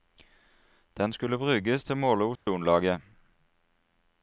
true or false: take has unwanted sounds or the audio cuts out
true